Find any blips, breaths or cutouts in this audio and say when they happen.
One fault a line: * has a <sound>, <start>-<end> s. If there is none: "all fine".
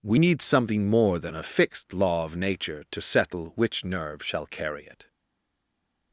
all fine